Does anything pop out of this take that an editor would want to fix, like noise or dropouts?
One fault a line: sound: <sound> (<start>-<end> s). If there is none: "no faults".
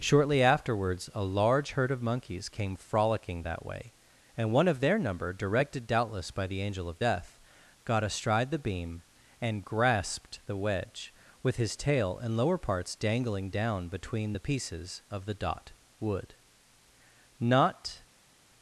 no faults